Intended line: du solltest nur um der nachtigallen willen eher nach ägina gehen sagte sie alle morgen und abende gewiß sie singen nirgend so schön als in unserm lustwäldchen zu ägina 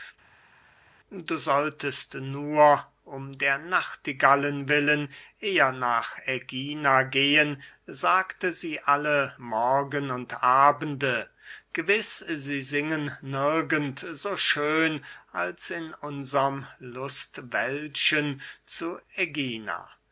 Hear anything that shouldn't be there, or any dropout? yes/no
no